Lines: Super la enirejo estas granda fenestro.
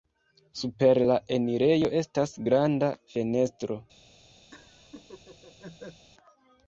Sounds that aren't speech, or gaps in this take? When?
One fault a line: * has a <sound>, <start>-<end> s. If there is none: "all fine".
* has a laugh, 4.5-6.1 s